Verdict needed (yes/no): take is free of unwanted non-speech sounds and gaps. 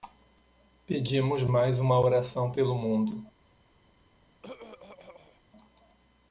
no